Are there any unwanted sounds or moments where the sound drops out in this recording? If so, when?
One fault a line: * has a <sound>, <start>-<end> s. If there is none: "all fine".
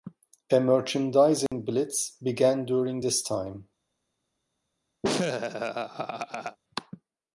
* has a dropout, 1.5-1.5 s
* has a laugh, 5.0-6.6 s